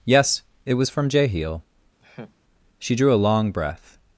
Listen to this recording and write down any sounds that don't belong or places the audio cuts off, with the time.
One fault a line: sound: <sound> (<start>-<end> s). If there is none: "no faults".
sound: laugh (2.0-2.3 s)